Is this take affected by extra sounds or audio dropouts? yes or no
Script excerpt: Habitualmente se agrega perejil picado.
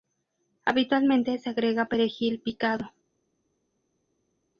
no